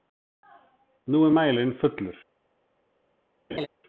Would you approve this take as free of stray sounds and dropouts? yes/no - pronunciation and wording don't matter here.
no